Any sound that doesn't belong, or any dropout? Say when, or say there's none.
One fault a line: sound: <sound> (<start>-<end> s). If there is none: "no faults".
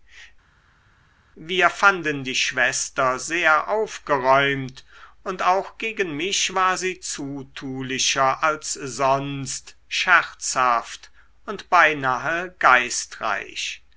no faults